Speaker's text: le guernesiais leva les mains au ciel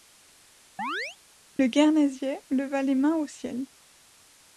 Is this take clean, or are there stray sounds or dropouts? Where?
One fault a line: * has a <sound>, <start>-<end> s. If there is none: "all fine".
* has a chirp, 0.8-1.2 s